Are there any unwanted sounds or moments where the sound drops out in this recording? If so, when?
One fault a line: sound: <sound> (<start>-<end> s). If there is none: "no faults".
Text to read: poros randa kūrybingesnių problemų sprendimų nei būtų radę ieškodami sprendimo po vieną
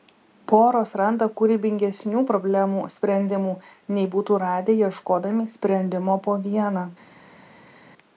no faults